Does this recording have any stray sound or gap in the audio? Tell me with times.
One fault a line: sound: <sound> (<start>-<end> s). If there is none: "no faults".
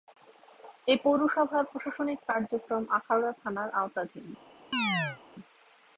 sound: chirp (4.7-5.2 s)